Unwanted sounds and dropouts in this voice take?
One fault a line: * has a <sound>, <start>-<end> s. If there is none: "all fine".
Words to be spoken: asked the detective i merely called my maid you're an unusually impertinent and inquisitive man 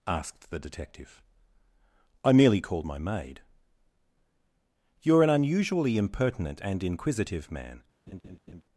* has a laugh, 8.1-8.6 s